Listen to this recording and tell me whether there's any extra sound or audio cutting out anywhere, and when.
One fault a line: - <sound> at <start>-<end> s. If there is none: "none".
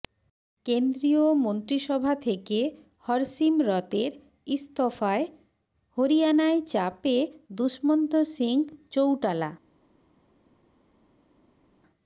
none